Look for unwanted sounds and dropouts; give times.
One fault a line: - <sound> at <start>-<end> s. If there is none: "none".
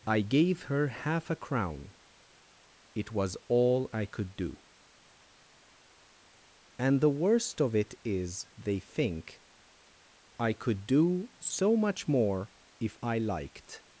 none